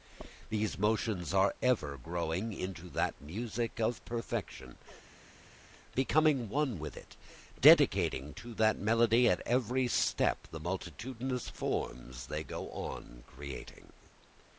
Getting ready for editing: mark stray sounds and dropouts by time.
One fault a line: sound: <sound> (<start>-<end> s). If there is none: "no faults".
no faults